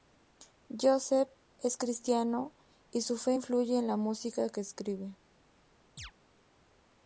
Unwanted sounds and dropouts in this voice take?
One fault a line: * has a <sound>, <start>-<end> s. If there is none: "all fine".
* has a chirp, 6.0-6.1 s